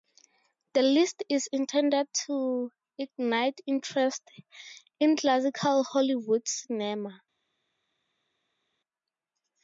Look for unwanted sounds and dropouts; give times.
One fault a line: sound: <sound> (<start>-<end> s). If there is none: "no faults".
no faults